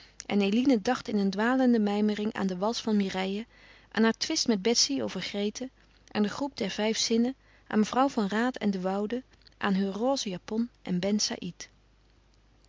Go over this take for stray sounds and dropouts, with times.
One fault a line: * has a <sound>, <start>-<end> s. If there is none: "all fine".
all fine